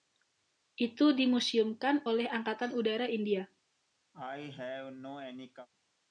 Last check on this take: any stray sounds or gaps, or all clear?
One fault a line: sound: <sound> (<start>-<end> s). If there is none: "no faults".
sound: cough (4.1-5.7 s)